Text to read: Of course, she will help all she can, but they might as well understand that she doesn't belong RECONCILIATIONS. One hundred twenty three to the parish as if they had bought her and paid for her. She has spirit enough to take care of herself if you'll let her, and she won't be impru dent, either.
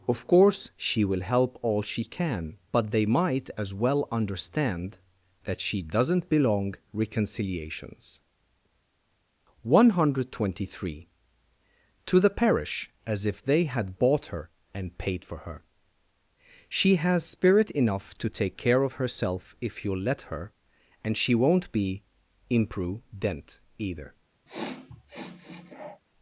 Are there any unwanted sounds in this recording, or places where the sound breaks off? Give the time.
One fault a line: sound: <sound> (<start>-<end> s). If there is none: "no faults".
sound: sniff (24.5-26.0 s)